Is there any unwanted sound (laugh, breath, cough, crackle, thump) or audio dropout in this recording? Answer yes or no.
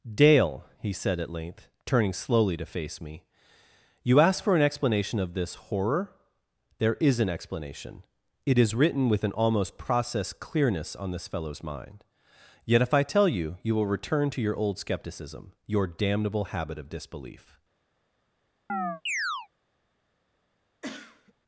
yes